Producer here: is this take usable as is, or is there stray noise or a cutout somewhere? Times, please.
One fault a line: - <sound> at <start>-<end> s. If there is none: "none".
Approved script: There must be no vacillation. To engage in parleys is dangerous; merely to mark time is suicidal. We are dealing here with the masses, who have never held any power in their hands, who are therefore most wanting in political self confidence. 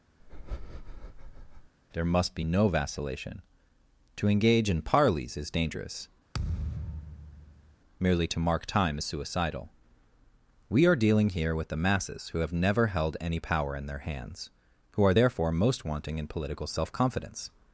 - breath at 0.2-1.7 s
- thud at 6.3-7.8 s